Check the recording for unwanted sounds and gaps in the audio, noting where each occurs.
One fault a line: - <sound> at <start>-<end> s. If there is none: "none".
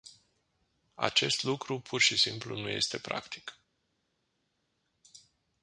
none